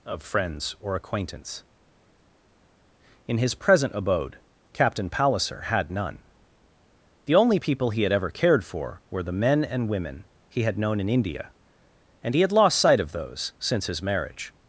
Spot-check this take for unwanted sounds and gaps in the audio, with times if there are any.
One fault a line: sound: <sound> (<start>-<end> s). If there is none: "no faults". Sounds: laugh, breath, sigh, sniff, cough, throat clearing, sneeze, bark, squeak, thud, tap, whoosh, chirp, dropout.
no faults